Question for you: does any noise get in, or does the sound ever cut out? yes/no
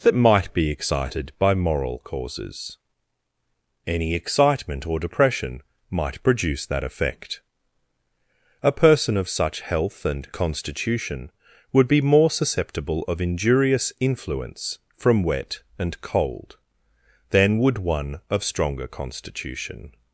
no